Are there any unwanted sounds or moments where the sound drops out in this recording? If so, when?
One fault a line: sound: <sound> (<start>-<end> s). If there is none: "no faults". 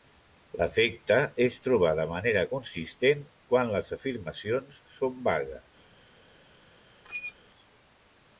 sound: squeak (7.0-7.3 s)